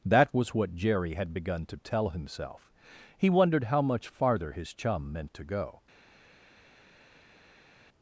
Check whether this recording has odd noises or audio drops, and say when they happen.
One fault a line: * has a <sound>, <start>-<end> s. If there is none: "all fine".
all fine